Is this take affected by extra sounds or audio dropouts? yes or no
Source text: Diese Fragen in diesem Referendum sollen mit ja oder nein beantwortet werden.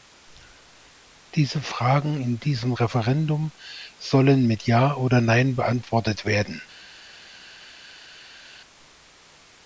no